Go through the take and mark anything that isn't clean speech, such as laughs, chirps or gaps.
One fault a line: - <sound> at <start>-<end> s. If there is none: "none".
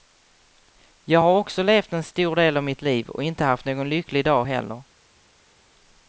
none